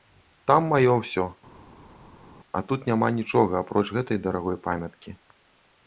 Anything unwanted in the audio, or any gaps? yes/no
no